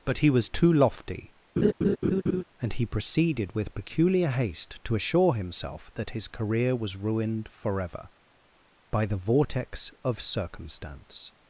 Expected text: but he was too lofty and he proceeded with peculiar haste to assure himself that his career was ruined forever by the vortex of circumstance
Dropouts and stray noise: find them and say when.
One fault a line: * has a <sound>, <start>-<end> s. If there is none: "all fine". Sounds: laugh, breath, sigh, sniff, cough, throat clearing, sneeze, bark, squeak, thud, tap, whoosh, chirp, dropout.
* has a laugh, 1.6-2.4 s